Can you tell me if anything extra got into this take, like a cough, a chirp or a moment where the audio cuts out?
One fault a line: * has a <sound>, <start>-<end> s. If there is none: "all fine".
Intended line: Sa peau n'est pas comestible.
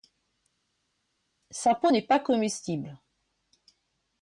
all fine